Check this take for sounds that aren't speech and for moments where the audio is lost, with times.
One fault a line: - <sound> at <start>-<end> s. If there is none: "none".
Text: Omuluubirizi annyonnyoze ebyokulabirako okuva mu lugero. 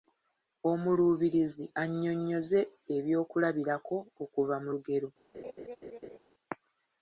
- laugh at 5.3-6.2 s